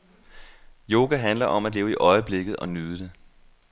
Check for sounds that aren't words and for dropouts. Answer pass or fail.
pass